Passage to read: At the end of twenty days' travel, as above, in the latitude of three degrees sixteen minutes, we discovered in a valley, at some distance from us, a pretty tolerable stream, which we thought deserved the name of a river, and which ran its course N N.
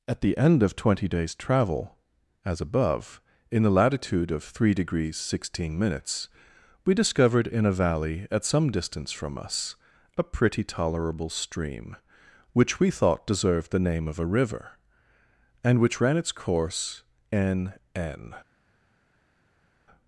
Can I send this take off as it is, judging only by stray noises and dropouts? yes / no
yes